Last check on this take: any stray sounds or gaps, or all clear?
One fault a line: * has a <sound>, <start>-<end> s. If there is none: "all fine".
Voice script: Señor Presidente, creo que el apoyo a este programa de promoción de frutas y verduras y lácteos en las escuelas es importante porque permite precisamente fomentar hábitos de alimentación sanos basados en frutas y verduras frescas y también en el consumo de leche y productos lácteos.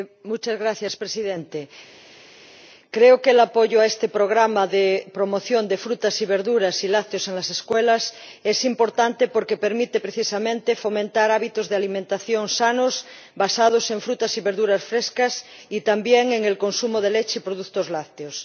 all fine